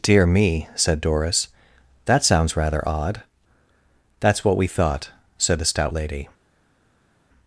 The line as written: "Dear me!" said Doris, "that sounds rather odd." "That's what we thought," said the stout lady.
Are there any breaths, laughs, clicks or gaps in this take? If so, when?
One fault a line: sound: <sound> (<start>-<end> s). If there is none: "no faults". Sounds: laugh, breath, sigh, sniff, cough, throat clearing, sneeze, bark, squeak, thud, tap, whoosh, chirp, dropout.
no faults